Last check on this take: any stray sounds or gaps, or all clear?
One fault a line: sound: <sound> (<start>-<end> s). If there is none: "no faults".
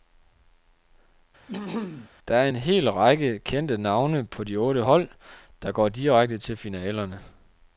sound: throat clearing (1.5-2.1 s)